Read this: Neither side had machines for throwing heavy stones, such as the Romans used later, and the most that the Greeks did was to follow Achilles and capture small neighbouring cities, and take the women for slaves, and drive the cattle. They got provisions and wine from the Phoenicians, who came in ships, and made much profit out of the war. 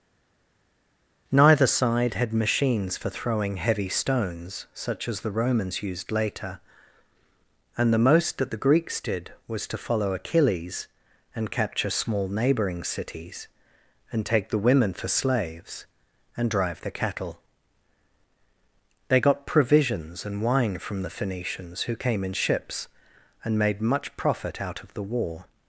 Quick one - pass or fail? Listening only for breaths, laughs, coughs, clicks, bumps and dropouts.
pass